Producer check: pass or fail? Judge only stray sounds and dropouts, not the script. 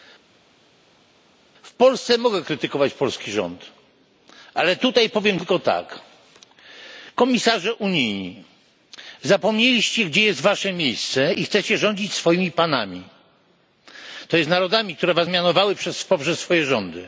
pass